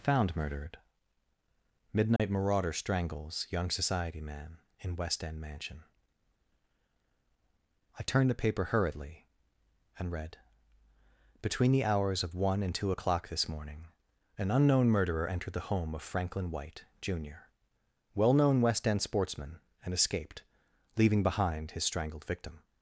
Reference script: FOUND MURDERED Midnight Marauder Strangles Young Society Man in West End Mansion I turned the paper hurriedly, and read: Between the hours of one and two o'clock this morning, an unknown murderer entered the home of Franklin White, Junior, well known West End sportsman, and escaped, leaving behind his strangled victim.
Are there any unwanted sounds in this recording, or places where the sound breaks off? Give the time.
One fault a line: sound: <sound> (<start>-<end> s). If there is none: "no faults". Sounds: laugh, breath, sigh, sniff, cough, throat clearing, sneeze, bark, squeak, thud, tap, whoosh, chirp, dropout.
sound: dropout (2.2-2.2 s)